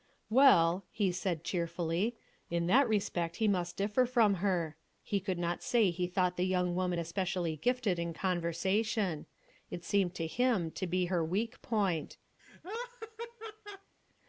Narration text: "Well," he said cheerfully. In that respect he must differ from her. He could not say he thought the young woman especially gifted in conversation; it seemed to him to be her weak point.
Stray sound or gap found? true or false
true